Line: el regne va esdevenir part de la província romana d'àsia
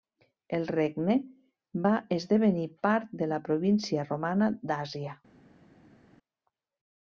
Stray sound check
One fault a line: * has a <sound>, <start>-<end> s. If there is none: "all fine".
all fine